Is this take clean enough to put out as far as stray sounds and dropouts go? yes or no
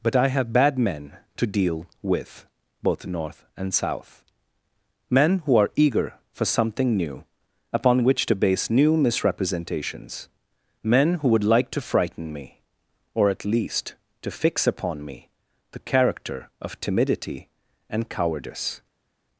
yes